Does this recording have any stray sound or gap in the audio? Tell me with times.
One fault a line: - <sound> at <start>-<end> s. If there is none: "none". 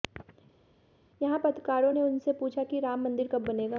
none